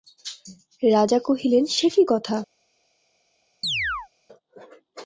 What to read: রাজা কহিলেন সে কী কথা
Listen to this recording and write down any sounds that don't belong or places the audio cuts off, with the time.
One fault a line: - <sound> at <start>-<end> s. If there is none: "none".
- chirp at 3.6-4.1 s